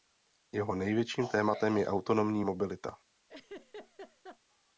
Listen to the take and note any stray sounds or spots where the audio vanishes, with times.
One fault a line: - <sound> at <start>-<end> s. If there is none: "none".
- laugh at 3.3-4.4 s